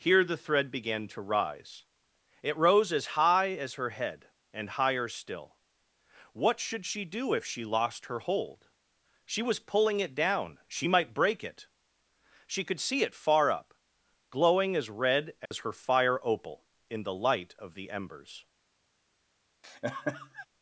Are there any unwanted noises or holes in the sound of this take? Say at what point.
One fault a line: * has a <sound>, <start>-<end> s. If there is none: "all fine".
* has a dropout, 15.5-15.5 s
* has a laugh, 19.6-20.5 s